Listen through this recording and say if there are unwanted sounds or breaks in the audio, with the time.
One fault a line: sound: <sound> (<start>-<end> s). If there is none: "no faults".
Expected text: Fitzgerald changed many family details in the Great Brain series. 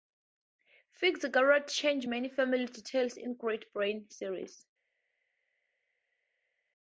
no faults